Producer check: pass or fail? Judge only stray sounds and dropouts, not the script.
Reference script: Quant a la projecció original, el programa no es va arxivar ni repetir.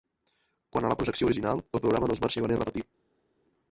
pass